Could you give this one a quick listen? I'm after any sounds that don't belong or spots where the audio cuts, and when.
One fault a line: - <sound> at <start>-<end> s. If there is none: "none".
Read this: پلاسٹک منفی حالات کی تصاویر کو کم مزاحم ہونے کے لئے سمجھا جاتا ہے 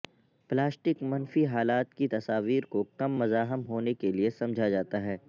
none